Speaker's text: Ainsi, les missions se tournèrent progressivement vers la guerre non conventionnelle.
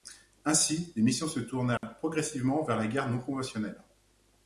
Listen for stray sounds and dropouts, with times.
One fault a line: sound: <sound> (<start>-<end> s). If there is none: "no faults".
sound: dropout (1.8-1.8 s)